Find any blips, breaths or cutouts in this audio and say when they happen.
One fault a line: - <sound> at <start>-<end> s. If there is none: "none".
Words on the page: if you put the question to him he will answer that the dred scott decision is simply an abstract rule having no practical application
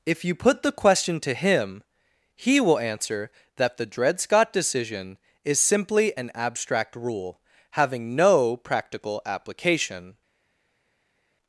none